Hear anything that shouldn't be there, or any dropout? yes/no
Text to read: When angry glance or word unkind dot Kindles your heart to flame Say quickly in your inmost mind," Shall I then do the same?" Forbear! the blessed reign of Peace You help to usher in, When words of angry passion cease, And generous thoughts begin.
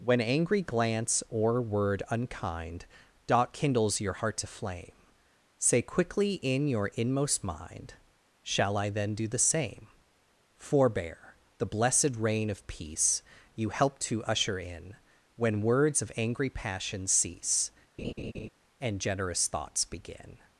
yes